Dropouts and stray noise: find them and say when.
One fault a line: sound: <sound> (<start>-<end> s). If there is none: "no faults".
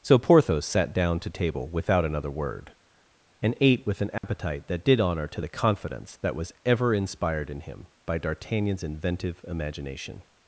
sound: dropout (4.2-4.2 s)